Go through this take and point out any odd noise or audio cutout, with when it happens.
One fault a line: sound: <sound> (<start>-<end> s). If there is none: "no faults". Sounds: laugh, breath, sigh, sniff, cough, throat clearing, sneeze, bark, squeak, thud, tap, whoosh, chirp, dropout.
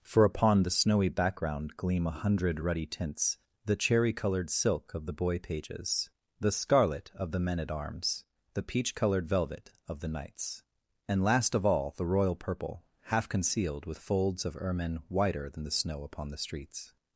no faults